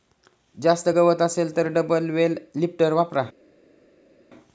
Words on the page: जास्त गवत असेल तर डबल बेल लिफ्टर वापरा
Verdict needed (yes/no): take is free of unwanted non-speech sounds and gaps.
yes